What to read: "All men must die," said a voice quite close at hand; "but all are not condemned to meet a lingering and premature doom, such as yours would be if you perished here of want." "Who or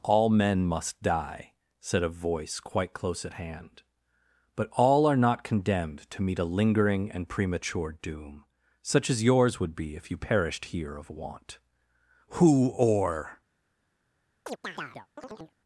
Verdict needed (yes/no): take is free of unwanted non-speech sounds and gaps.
no